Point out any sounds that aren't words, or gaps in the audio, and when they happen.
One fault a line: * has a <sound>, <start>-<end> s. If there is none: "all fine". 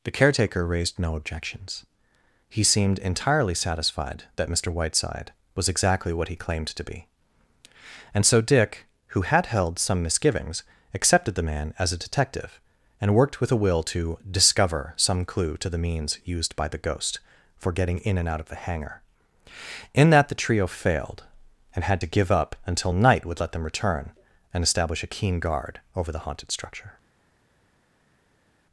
all fine